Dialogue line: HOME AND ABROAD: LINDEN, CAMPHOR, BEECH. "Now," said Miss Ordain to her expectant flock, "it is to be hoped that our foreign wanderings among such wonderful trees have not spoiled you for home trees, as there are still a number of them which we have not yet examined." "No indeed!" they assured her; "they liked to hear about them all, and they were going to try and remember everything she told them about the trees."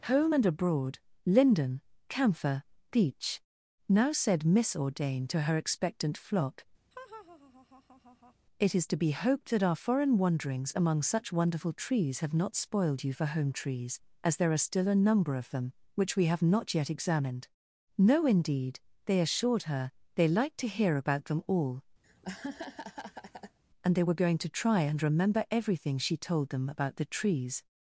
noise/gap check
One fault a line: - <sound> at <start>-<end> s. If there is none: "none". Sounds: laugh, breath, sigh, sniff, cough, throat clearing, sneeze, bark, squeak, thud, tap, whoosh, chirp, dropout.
- laugh at 6.9-8.3 s
- laugh at 22.0-23.6 s